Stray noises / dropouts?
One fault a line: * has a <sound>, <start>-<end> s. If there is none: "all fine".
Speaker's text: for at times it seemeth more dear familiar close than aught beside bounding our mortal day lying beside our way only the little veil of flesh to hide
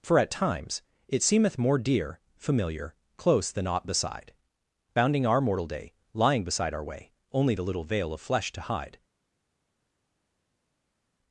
all fine